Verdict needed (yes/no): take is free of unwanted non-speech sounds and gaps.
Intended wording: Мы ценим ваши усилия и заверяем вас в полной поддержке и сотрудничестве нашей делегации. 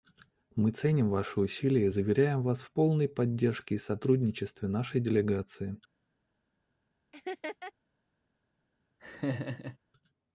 no